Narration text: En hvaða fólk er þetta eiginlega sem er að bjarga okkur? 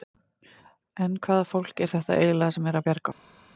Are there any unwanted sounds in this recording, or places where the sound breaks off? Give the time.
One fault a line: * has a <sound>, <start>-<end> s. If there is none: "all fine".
all fine